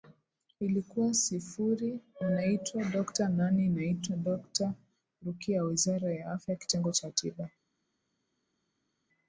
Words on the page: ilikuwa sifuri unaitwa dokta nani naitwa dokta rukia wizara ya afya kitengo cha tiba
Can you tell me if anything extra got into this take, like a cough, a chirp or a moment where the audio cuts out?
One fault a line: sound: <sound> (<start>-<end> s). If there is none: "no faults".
no faults